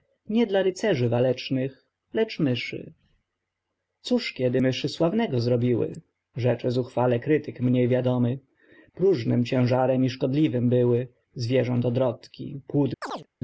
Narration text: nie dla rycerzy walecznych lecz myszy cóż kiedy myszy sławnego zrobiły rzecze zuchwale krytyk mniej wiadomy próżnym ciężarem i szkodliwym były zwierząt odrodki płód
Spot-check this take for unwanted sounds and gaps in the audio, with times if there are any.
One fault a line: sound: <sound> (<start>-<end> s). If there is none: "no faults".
sound: chirp (13.0-13.3 s)